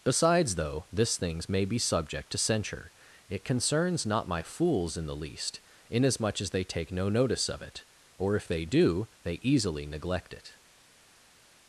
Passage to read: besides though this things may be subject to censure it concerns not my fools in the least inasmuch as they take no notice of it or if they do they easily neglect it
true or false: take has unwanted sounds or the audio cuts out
false